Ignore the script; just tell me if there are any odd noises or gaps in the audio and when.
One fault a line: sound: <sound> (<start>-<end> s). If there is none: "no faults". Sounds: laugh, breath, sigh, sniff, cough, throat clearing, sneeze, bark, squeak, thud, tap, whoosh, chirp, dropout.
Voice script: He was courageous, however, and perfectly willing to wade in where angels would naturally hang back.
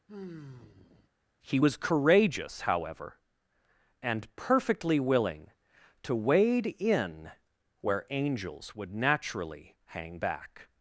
sound: sigh (0.1-1.1 s)